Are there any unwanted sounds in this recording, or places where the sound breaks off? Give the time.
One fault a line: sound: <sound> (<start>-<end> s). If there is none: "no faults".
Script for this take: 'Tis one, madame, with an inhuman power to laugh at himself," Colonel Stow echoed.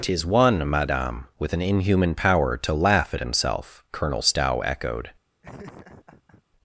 sound: laugh (5.4-6.4 s)